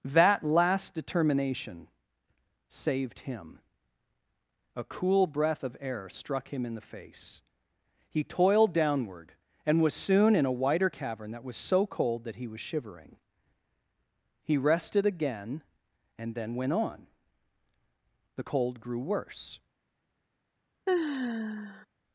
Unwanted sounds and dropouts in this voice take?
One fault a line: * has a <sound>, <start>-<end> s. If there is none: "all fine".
* has a sigh, 20.9-21.9 s